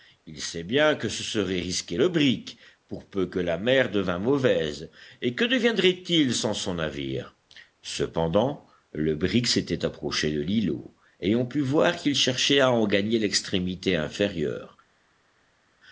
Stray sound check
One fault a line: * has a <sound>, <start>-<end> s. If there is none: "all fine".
all fine